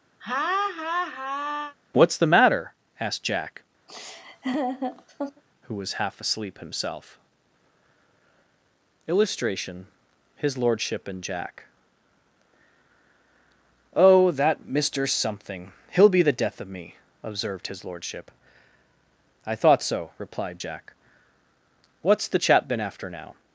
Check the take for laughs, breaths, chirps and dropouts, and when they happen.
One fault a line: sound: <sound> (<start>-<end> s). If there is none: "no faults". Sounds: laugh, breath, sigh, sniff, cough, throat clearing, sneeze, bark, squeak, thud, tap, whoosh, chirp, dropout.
sound: laugh (0.2-1.8 s)
sound: laugh (3.9-5.4 s)